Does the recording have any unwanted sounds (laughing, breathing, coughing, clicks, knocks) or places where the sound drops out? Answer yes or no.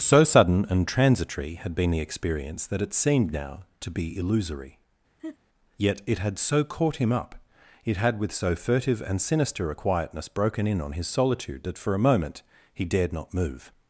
yes